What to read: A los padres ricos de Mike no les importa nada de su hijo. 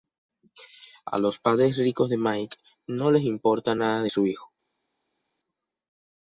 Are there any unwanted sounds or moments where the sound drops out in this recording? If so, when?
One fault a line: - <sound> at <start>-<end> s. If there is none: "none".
none